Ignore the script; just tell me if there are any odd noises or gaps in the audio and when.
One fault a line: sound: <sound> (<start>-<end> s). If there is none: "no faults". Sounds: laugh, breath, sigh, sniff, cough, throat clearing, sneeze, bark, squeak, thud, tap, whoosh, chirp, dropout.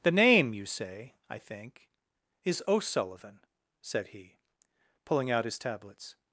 no faults